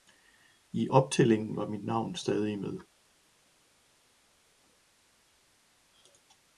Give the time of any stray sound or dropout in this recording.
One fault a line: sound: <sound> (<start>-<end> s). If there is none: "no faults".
no faults